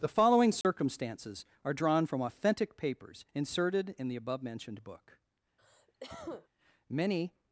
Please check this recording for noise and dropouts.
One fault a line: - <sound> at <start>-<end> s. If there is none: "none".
- dropout at 0.6-0.6 s
- cough at 5.6-6.5 s